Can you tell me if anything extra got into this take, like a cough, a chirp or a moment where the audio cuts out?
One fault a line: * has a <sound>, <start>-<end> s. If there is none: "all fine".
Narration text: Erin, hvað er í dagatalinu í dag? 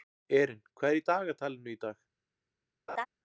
* has a laugh, 2.9-3.1 s